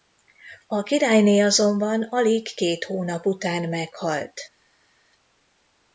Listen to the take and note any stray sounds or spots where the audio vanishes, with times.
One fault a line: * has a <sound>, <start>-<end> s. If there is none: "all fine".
all fine